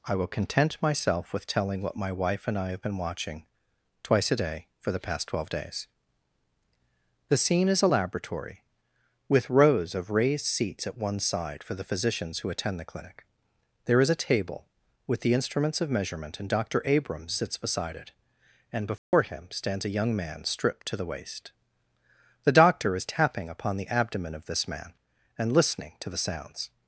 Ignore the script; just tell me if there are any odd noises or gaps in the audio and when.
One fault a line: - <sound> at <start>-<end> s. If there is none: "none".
- dropout at 19.0-19.1 s